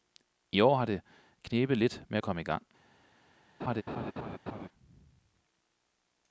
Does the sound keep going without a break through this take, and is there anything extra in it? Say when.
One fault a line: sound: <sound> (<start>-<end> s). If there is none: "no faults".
sound: laugh (3.6-4.7 s)